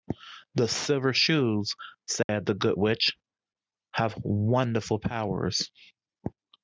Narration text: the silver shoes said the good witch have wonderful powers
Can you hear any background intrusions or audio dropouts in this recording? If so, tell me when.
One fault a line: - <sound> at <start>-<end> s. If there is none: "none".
- dropout at 2.2-2.3 s